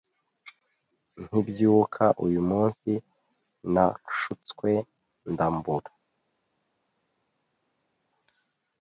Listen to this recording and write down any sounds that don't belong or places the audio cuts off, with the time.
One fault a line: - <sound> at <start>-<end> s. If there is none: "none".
none